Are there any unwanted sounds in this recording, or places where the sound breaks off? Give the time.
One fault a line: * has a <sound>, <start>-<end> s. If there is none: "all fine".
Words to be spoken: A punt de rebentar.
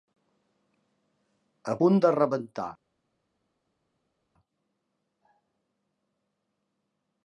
all fine